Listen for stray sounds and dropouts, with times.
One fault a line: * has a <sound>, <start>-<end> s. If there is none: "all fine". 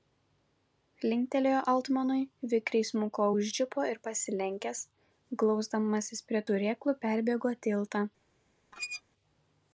* has a squeak, 8.7-9.0 s